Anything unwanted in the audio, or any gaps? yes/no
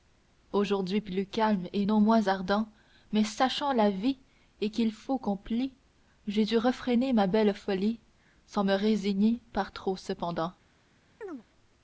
yes